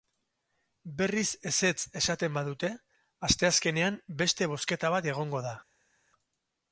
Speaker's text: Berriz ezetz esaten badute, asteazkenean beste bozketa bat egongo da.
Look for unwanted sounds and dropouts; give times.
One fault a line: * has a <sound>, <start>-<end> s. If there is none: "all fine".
all fine